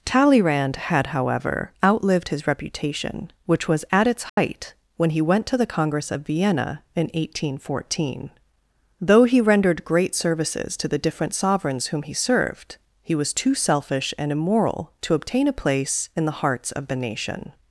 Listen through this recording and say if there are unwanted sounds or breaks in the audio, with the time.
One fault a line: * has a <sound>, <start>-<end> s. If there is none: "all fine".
* has a dropout, 4.3-4.4 s